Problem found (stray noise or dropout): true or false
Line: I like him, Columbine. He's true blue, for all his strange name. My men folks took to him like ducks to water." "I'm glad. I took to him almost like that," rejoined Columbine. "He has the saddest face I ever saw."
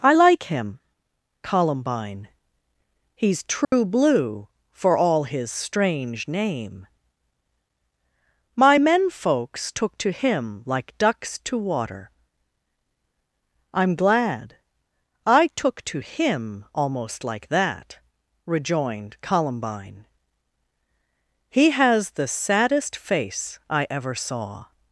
true